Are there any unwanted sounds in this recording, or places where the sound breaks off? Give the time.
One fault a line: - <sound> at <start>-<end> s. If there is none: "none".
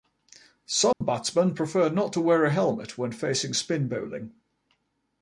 - dropout at 0.9-1.0 s